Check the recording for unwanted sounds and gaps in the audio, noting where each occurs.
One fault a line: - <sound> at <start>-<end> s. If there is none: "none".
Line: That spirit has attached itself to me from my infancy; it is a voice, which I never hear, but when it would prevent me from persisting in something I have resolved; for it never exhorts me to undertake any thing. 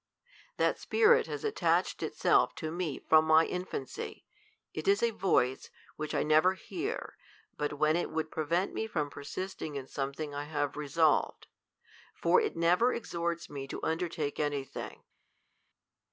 none